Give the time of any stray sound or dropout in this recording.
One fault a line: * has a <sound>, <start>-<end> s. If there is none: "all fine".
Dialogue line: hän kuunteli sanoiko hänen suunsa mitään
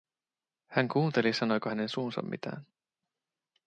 all fine